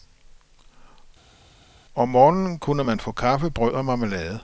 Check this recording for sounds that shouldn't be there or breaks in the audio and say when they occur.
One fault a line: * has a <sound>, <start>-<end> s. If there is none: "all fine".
all fine